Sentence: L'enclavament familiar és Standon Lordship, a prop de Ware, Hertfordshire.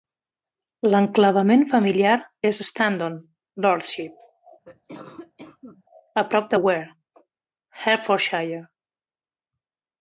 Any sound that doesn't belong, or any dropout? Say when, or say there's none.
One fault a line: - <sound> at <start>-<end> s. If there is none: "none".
- cough at 4.6-5.8 s